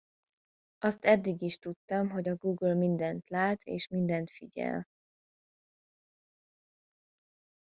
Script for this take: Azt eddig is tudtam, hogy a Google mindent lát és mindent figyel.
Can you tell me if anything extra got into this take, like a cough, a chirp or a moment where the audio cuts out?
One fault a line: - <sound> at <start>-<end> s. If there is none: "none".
none